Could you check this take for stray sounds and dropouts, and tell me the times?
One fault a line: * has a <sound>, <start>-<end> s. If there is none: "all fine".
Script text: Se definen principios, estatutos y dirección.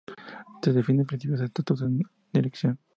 all fine